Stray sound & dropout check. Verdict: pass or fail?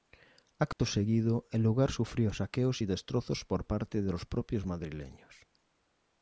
fail